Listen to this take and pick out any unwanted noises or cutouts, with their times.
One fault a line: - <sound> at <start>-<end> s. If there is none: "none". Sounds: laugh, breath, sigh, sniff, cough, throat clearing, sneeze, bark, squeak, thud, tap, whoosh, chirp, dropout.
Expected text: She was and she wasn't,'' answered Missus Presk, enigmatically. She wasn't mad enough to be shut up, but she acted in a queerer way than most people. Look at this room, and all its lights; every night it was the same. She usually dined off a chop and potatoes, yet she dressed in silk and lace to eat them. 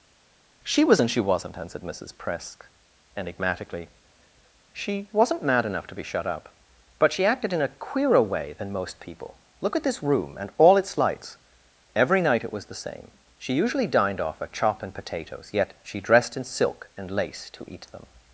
none